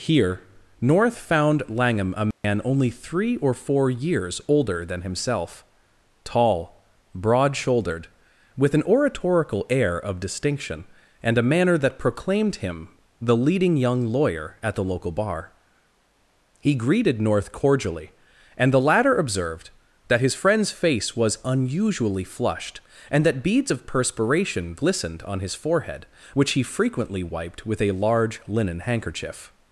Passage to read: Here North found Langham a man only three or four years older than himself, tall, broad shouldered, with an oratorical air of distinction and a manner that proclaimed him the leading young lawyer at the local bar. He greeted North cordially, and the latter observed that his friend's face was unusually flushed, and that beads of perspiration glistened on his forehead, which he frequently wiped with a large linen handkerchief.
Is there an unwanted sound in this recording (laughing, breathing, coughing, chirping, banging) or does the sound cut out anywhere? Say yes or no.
yes